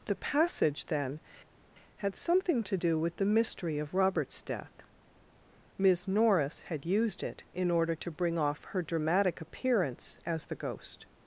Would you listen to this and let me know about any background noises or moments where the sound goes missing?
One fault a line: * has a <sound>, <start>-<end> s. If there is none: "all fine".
all fine